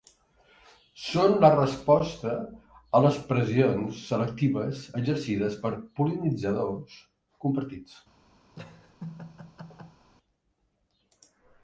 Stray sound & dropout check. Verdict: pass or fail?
fail